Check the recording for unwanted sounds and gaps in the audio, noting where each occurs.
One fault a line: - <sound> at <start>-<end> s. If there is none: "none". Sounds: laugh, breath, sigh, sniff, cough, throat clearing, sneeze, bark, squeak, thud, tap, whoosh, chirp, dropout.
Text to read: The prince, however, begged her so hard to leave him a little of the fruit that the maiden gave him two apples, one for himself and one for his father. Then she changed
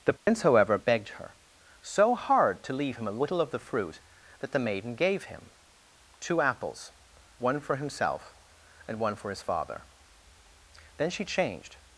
- dropout at 0.2-0.3 s